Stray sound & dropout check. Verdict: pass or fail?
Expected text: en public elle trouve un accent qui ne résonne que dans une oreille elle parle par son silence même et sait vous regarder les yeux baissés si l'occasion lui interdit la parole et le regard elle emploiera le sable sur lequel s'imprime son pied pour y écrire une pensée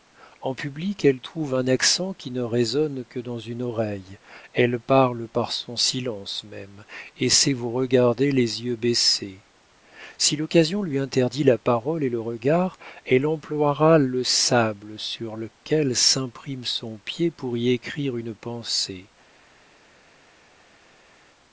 pass